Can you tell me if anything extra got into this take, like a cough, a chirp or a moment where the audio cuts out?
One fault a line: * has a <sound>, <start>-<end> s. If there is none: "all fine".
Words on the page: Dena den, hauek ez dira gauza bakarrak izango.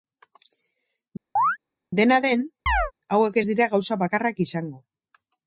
* has a chirp, 1.4-1.6 s
* has a chirp, 2.7-2.9 s